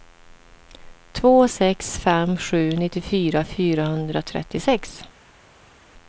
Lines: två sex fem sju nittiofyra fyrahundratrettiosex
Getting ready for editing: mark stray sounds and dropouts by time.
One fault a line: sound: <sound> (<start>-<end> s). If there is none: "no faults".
no faults